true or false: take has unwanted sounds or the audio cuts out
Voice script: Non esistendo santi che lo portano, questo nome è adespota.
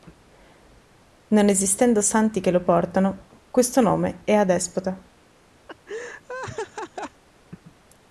true